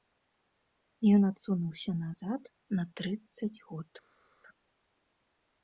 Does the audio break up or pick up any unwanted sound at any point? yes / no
no